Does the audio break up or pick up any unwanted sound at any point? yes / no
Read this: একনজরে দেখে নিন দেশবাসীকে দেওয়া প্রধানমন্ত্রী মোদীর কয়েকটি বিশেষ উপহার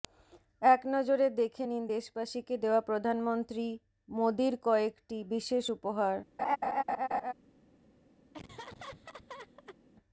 yes